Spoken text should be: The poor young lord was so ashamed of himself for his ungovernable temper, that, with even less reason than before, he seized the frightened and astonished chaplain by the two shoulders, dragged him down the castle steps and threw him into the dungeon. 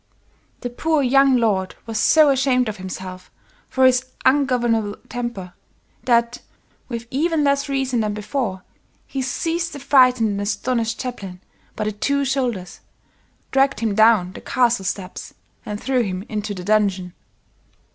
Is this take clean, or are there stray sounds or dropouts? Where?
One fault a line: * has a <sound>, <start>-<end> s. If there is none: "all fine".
all fine